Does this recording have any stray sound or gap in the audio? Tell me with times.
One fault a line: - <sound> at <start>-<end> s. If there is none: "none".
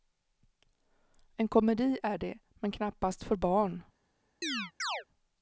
- chirp at 4.4-5.0 s